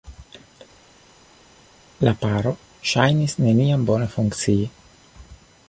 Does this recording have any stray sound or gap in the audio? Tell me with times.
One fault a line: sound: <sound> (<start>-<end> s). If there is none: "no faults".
no faults